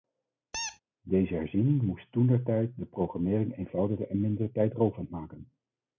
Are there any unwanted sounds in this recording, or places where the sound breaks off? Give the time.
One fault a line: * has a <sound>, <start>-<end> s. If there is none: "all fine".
* has a squeak, 0.5-0.8 s